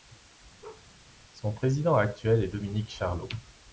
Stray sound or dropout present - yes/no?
yes